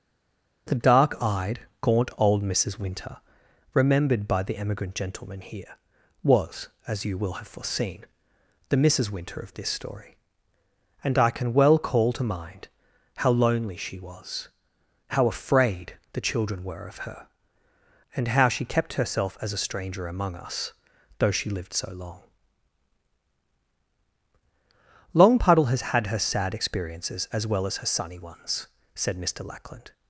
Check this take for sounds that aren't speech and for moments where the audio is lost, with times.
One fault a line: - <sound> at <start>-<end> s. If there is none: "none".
none